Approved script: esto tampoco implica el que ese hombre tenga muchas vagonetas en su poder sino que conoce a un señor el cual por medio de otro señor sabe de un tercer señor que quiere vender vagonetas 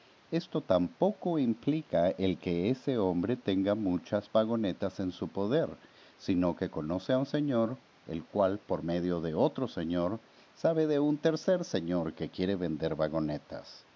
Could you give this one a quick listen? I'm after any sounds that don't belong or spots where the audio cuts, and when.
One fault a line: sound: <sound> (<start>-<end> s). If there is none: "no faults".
no faults